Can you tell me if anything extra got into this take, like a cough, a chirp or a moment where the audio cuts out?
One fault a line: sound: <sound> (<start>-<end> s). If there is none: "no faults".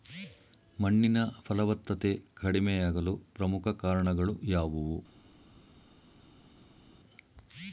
no faults